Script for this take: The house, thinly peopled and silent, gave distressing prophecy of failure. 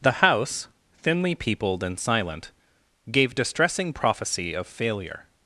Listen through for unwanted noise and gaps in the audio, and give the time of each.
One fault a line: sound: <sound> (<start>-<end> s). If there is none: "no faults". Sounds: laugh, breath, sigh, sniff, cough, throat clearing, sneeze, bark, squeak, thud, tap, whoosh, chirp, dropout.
no faults